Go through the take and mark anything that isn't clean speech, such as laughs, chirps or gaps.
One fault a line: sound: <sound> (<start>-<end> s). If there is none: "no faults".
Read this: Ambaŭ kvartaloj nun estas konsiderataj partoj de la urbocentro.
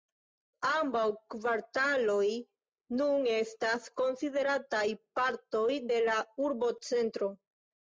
no faults